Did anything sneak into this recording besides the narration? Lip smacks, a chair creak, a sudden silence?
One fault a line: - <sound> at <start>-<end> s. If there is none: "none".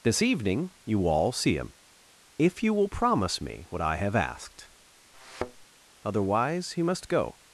- thud at 5.1-5.7 s